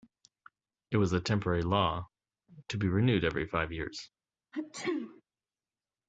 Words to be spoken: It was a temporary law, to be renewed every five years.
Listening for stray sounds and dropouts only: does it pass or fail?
fail